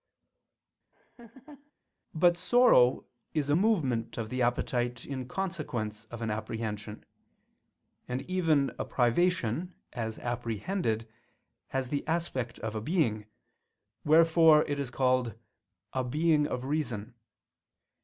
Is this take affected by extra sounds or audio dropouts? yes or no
yes